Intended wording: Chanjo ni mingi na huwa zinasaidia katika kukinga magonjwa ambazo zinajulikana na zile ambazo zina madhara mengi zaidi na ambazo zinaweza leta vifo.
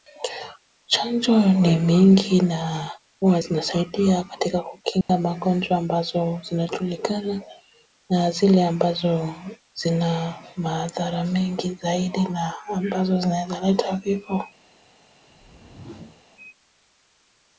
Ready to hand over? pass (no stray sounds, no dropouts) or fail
fail